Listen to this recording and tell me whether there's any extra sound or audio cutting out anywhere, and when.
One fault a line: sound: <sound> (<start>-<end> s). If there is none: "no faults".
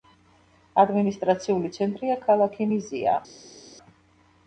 no faults